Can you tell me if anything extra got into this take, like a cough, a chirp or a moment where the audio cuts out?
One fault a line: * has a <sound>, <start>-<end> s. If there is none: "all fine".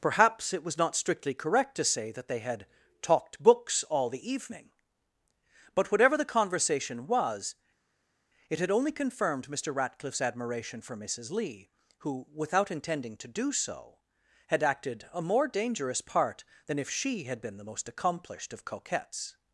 all fine